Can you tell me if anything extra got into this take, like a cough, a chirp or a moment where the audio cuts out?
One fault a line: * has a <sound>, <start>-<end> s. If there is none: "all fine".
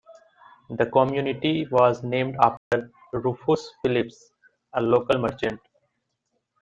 * has a dropout, 2.6-2.7 s